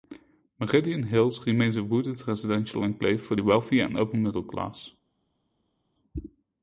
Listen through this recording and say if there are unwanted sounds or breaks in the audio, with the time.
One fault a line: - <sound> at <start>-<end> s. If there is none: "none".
none